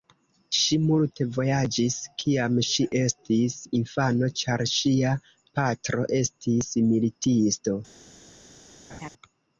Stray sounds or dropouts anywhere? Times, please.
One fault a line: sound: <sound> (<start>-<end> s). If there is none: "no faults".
sound: laugh (8.9-9.1 s)